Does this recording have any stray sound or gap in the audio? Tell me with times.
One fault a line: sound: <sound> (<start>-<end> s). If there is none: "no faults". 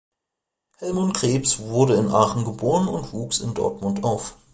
no faults